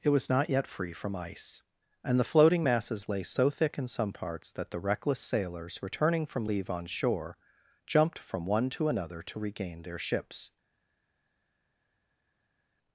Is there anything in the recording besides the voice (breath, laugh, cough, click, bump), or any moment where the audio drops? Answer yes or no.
no